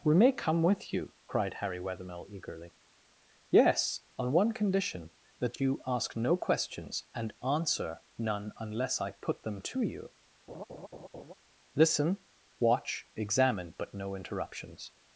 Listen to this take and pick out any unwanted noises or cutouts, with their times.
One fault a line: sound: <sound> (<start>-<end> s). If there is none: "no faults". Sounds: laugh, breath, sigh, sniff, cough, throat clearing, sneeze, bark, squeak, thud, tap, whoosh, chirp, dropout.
sound: laugh (10.5-11.3 s)